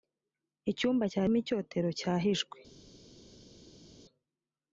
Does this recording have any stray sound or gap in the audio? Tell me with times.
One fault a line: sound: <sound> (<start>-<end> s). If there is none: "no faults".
no faults